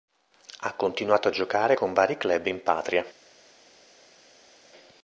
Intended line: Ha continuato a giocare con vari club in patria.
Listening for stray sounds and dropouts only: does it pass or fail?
pass